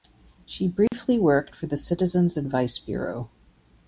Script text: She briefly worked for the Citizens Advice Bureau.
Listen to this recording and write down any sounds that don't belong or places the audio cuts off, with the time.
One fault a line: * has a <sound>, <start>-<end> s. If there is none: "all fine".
* has a dropout, 0.9-0.9 s